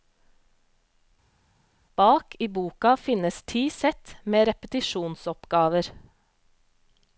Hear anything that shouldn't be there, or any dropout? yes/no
no